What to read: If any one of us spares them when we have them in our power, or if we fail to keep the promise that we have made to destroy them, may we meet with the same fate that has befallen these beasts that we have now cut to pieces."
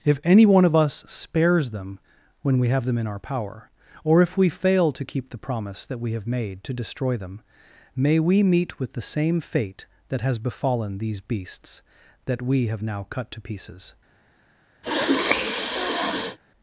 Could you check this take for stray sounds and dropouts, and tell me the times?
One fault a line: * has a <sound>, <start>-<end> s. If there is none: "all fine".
* has a sniff, 14.8-16.4 s